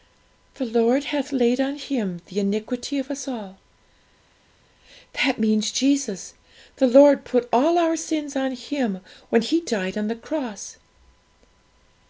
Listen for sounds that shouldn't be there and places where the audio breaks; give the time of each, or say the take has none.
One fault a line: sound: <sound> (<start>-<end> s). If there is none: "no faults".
no faults